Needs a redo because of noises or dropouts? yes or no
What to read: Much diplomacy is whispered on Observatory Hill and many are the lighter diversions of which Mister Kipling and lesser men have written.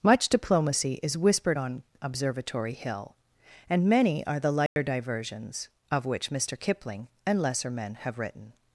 yes